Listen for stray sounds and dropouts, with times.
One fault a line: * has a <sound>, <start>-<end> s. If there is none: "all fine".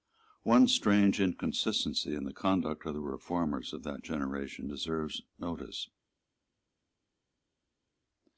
all fine